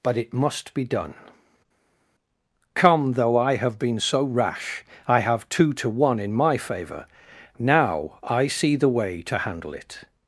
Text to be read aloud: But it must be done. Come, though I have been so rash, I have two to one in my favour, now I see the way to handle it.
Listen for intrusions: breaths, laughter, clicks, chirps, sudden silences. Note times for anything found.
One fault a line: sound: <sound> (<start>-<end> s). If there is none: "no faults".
no faults